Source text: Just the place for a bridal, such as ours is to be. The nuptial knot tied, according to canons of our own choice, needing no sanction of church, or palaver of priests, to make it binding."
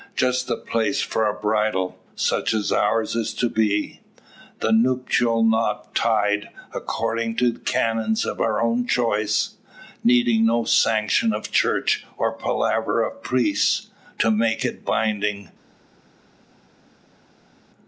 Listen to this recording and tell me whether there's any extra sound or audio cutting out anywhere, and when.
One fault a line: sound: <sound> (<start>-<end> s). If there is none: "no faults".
no faults